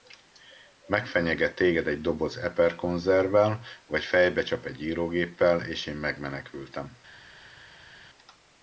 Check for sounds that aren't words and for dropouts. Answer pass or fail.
pass